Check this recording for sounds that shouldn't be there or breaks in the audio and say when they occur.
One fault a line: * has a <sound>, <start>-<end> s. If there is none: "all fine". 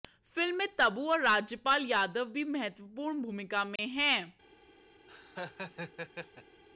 * has a dropout, 3.8-3.8 s
* has a laugh, 5.1-6.6 s